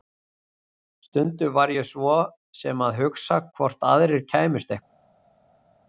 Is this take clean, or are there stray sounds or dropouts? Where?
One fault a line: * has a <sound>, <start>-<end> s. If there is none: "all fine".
all fine